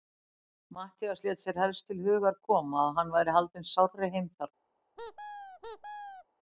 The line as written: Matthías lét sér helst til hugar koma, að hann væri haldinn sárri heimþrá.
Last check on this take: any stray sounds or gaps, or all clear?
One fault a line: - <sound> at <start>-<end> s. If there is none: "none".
- squeak at 5.0-6.3 s